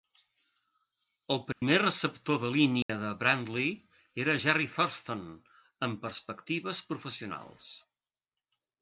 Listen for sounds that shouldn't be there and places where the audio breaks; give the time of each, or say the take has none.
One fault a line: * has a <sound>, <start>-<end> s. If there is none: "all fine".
* has a dropout, 1.5-1.6 s
* has a dropout, 2.8-2.9 s